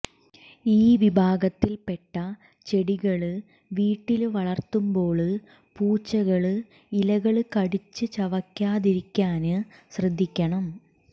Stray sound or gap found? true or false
false